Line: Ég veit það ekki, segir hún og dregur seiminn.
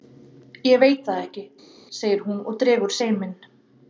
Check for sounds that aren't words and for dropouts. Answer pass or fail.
pass